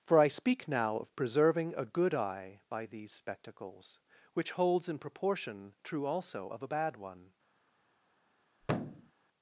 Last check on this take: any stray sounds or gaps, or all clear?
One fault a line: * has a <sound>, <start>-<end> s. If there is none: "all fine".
* has a thud, 8.6-9.1 s